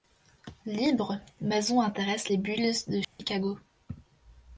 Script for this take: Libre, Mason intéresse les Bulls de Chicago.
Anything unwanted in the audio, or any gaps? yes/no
yes